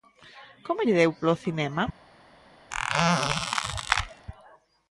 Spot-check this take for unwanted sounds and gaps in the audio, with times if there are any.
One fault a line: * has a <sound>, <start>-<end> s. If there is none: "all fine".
* has a squeak, 2.7-4.3 s